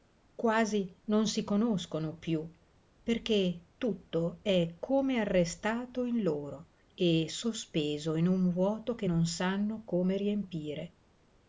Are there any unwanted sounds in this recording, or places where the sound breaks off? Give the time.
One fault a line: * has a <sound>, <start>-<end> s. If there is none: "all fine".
all fine